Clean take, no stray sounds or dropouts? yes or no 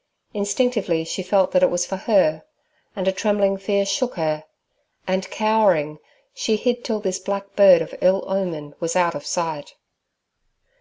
yes